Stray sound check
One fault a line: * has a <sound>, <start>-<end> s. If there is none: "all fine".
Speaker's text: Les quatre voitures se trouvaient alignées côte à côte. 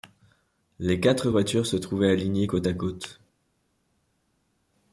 all fine